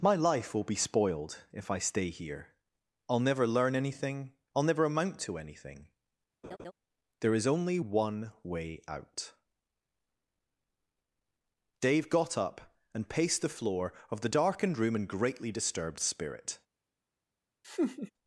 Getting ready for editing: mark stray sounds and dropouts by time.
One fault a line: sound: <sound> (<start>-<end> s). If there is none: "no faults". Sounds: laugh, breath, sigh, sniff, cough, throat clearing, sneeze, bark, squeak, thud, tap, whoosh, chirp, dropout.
sound: laugh (6.4-6.7 s)
sound: laugh (17.6-18.1 s)